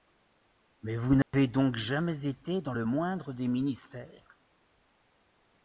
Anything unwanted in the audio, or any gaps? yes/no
yes